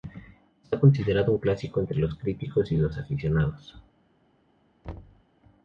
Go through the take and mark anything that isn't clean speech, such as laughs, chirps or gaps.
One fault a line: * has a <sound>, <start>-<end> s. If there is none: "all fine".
* has a thud, 4.8-5.2 s